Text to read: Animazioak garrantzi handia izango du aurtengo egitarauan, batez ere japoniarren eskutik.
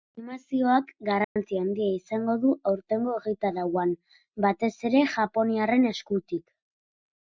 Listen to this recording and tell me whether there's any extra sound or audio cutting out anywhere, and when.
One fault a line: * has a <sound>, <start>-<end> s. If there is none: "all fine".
* has a dropout, 1.2-1.4 s